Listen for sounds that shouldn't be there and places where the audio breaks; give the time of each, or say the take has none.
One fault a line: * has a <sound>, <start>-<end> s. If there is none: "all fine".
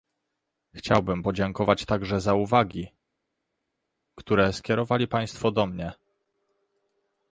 all fine